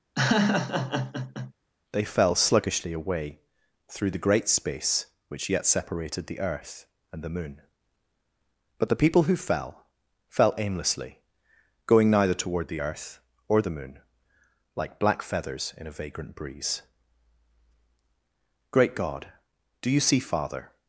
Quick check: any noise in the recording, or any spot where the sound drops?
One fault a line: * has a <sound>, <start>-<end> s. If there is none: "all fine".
* has a laugh, 0.2-1.5 s